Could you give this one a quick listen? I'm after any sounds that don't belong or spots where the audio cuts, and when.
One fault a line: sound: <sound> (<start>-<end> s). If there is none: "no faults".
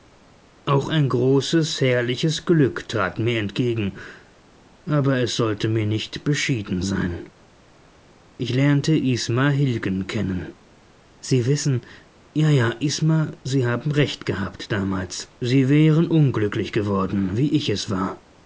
no faults